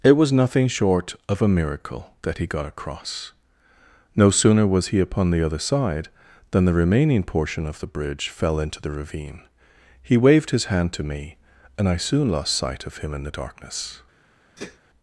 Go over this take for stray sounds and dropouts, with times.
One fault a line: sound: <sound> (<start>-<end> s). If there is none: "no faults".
sound: sneeze (14.6-14.8 s)